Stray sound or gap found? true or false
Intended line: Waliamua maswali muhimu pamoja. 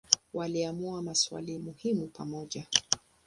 false